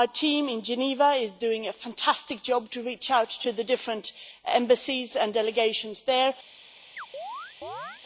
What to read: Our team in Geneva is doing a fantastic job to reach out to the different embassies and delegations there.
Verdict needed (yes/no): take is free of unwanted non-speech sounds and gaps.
no